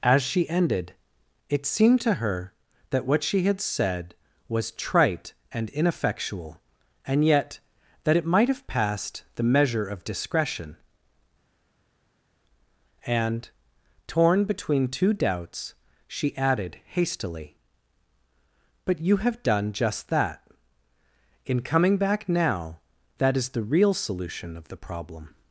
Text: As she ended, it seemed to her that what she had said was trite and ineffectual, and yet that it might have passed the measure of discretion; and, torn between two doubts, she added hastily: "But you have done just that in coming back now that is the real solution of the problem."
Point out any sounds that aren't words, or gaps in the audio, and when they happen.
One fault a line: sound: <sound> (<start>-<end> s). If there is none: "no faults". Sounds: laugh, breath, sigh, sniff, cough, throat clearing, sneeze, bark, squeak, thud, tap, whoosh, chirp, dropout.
no faults